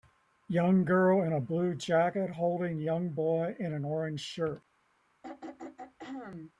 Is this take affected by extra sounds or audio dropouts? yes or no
yes